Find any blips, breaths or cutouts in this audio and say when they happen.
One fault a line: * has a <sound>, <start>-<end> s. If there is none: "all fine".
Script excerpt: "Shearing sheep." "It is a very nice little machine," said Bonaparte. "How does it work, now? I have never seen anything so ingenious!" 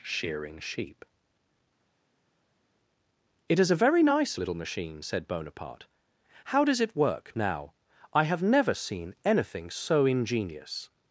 all fine